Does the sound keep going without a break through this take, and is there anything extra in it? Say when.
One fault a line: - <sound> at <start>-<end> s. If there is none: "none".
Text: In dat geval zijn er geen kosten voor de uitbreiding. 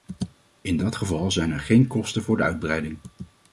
none